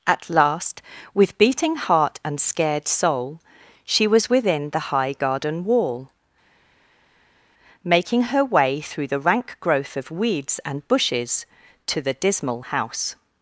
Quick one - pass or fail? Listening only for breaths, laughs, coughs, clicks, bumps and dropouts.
pass